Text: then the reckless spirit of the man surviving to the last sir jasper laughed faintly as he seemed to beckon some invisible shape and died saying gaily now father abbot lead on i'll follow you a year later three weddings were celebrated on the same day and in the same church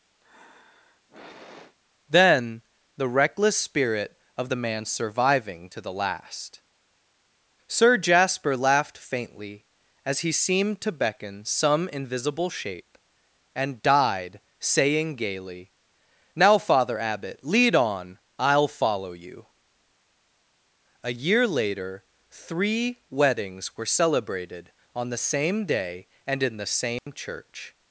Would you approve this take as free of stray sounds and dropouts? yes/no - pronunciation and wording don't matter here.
no